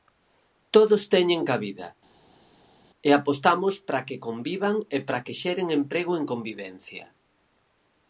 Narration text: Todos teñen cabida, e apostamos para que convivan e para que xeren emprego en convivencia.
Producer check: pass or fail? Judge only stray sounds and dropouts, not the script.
pass